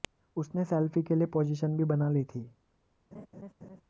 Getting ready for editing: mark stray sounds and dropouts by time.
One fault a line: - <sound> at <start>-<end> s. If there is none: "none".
- laugh at 3.1-3.8 s